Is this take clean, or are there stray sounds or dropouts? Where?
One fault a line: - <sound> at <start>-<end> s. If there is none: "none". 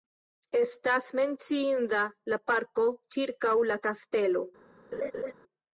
- laugh at 4.9-5.3 s